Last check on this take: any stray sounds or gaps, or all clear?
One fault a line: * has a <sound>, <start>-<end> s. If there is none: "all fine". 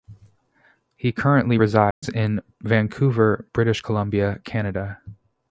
* has a dropout, 1.9-2.0 s